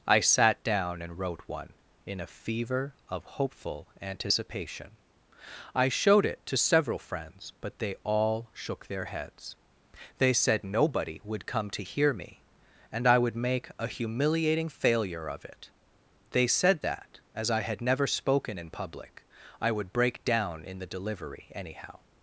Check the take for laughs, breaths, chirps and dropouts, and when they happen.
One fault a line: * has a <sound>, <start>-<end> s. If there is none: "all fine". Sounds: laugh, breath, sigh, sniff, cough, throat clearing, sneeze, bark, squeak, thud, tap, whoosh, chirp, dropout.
all fine